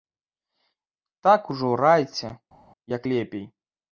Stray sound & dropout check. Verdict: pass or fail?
pass